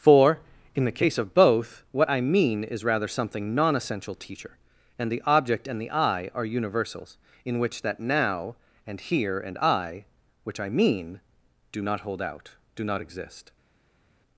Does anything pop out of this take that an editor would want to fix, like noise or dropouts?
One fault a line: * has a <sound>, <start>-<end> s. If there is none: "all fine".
all fine